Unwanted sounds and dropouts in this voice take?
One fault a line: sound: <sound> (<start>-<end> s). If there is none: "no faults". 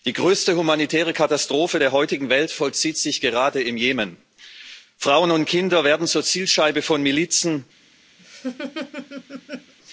sound: laugh (8.2-9.7 s)